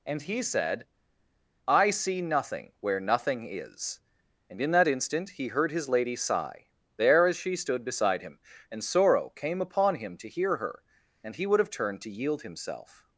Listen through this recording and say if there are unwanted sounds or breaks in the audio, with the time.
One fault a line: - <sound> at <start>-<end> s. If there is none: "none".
none